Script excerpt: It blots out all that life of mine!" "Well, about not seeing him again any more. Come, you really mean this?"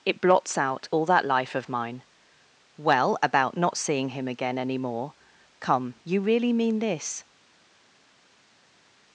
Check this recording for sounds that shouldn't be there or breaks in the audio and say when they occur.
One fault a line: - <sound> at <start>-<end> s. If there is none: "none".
none